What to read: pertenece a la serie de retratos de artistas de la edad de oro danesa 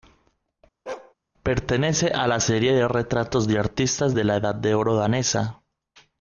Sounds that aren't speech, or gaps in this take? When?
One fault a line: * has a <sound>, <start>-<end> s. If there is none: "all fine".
* has a bark, 0.9-1.1 s